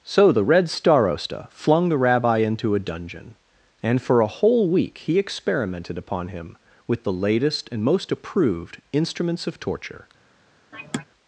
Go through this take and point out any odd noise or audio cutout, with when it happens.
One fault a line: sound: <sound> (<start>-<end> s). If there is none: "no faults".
sound: sigh (10.7-11.1 s)